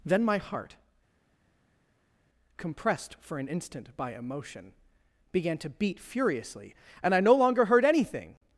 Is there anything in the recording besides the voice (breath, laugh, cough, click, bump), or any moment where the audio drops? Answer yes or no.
no